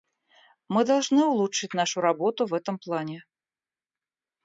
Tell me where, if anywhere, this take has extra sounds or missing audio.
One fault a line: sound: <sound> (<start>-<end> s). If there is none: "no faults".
no faults